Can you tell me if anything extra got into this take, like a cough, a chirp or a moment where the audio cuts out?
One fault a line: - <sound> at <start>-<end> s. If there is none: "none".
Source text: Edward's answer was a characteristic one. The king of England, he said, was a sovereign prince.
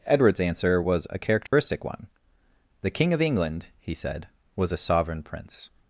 - dropout at 1.5-1.5 s